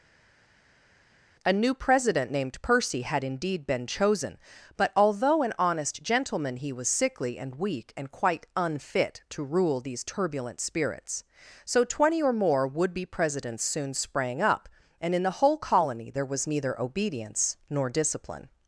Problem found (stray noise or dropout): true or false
false